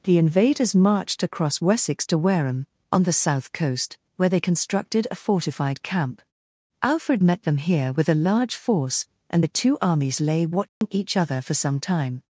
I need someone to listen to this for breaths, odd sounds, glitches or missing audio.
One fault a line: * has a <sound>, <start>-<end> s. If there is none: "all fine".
* has a dropout, 10.7-10.8 s